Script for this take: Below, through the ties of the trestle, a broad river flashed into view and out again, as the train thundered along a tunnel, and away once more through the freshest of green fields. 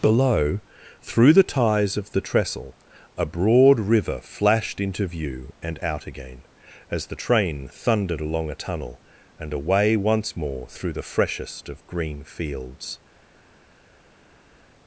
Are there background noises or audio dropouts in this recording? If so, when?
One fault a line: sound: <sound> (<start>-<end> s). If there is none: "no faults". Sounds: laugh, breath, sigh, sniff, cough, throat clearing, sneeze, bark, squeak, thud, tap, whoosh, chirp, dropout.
no faults